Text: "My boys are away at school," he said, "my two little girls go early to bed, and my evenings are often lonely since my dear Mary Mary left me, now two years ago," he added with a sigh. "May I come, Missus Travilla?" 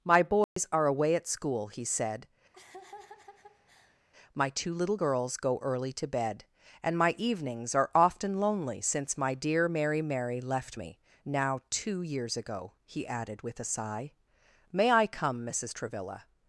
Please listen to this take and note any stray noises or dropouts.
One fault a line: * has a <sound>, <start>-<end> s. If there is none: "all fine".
* has a dropout, 0.4-0.6 s
* has a laugh, 2.5-4.0 s